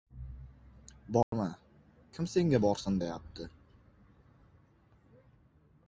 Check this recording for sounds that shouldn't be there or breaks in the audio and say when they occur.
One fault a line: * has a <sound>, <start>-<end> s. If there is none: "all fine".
* has a dropout, 1.2-1.3 s